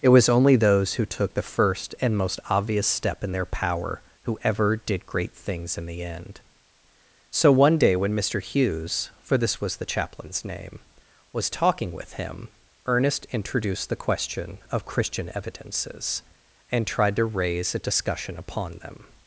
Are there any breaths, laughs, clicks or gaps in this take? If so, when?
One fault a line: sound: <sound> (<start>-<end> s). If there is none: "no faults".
no faults